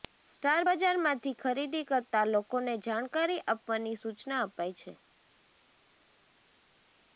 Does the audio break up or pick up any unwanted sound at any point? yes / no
no